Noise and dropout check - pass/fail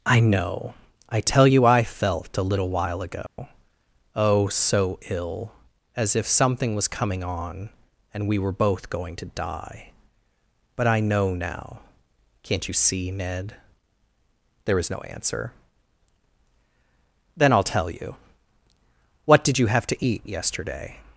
fail